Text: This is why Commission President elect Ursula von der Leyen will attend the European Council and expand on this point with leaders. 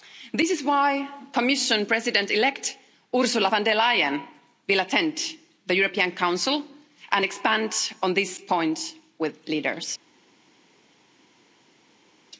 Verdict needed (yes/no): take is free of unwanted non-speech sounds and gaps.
yes